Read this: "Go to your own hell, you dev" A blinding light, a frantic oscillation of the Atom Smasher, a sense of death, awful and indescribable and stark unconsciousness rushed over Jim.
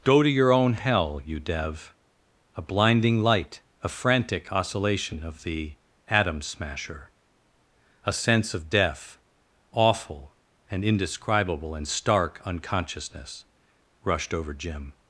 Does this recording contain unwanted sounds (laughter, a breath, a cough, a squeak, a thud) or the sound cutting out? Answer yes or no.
no